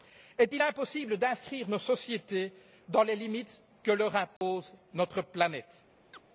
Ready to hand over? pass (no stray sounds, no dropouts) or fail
fail